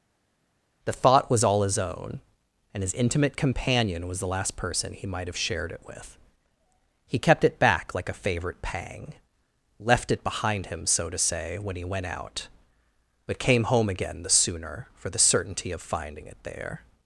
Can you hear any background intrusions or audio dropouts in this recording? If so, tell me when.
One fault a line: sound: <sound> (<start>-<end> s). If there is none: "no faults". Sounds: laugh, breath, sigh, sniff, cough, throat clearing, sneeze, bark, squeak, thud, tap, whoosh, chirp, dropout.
no faults